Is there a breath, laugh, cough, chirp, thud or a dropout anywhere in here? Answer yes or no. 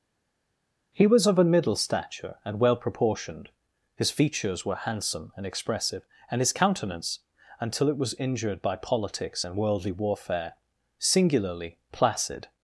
no